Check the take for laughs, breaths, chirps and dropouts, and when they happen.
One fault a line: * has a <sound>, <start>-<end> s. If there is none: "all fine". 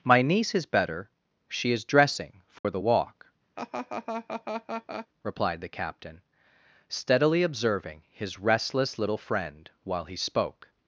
* has a dropout, 2.6-2.6 s
* has a laugh, 3.6-5.1 s